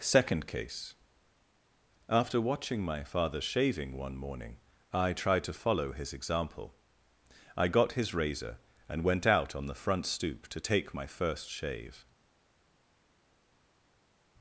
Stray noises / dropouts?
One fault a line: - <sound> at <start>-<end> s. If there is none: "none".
none